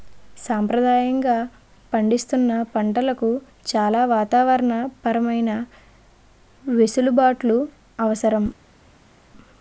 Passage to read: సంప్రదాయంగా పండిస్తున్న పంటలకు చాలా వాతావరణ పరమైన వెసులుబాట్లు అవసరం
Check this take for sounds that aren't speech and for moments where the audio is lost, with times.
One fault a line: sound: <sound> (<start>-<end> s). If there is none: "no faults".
no faults